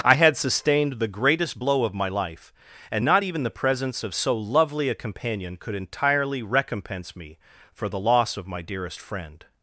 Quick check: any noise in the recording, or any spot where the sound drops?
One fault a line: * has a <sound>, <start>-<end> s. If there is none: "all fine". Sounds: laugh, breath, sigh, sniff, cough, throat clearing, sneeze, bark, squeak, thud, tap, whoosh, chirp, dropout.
all fine